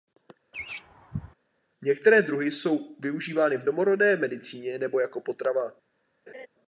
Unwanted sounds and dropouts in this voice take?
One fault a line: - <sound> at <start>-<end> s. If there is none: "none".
- laugh at 0.5-1.3 s
- laugh at 6.3-6.5 s